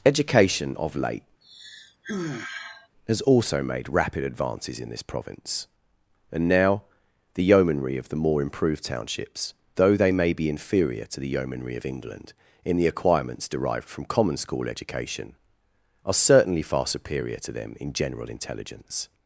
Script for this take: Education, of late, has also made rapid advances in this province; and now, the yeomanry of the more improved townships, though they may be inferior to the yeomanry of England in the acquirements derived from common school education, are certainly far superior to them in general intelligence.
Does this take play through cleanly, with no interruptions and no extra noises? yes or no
no